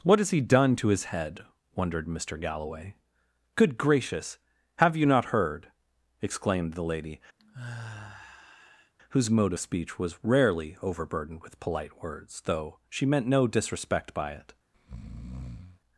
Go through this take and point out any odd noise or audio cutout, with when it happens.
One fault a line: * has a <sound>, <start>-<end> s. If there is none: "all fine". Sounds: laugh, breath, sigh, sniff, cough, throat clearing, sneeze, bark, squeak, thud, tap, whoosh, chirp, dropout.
* has a sigh, 7.4-8.9 s
* has a breath, 14.7-15.8 s